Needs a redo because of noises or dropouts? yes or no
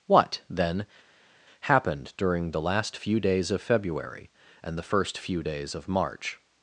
no